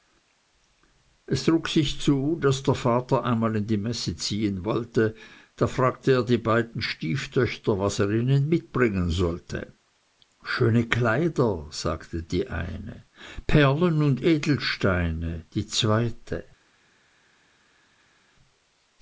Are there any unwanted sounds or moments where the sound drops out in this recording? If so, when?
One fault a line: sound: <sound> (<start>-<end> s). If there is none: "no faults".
no faults